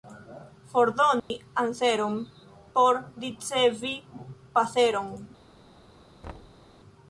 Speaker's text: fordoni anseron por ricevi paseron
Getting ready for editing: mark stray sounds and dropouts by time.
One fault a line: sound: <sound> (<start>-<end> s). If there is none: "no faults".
sound: dropout (1.2-1.3 s)
sound: thud (6.2-6.7 s)